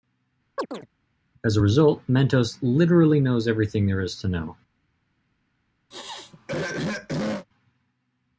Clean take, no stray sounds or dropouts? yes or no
no